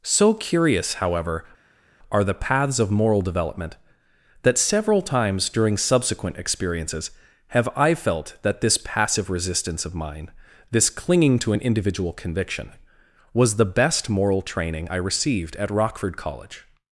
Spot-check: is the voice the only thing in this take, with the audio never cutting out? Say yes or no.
yes